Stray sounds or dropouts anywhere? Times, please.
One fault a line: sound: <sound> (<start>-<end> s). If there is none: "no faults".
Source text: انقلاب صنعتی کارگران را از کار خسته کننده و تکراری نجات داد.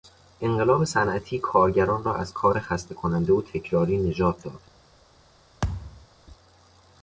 sound: thud (5.6-6.1 s)